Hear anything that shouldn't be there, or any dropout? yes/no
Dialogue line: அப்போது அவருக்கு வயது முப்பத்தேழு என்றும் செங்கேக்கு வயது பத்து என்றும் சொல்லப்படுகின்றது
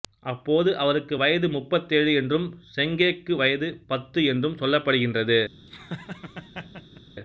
yes